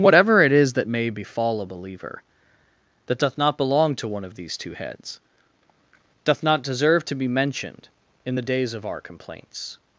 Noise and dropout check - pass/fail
pass